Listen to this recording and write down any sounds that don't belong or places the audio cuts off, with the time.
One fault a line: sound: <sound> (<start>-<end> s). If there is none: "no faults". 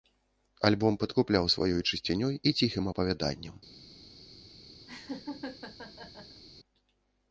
sound: laugh (4.9-6.4 s)